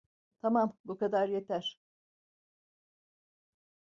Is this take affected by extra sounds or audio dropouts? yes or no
no